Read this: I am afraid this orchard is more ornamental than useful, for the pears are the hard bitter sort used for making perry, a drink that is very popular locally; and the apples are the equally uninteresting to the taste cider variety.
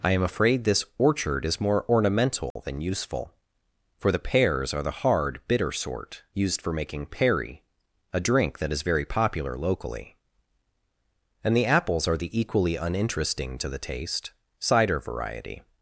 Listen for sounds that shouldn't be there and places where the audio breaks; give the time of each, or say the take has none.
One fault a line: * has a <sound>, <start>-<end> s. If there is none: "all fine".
* has a dropout, 2.5-2.6 s